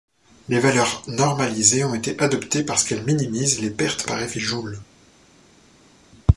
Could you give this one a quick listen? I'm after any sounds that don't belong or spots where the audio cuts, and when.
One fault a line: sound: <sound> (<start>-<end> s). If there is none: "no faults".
no faults